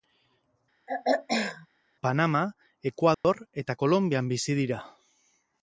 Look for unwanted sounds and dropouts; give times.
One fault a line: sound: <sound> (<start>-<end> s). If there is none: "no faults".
sound: throat clearing (0.9-1.7 s)
sound: dropout (3.1-3.2 s)